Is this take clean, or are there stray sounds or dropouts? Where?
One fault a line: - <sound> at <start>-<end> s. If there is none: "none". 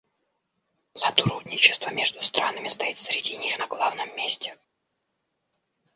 none